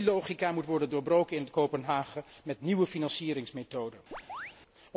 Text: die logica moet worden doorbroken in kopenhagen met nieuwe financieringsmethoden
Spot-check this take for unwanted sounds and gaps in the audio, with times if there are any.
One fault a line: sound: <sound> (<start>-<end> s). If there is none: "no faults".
sound: chirp (4.1-4.5 s)